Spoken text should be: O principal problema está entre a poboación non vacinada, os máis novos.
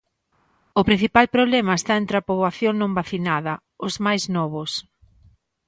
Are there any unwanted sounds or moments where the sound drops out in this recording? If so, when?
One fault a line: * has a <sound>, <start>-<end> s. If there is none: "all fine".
all fine